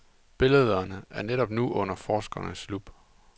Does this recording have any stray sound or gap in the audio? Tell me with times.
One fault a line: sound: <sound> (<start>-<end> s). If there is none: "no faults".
no faults